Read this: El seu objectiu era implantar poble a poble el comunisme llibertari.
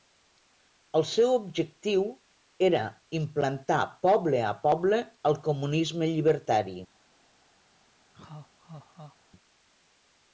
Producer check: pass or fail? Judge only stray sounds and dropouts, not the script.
fail